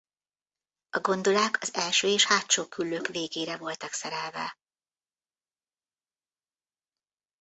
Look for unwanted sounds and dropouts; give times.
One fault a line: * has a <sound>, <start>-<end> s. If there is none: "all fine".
all fine